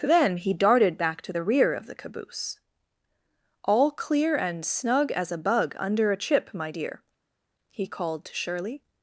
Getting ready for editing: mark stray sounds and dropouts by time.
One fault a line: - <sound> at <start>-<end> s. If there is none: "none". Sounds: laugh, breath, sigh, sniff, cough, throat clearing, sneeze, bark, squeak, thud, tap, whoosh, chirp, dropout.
none